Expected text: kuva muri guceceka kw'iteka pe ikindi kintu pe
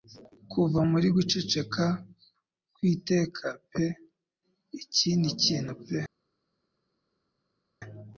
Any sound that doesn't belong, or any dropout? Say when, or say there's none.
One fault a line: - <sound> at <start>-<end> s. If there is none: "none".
none